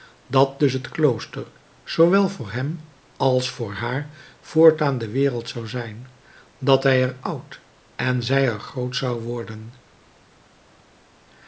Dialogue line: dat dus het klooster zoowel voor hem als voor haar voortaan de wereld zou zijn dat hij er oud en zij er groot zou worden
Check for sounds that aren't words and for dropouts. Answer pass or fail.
pass